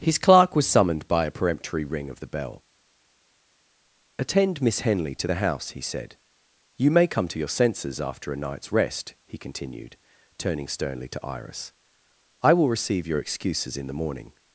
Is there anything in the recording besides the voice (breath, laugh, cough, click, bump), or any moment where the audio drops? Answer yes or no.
no